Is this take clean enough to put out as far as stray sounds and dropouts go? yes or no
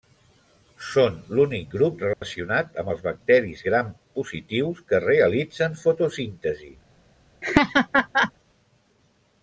no